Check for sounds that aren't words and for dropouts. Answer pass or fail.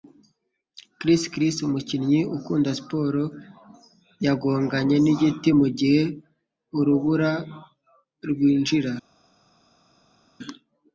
pass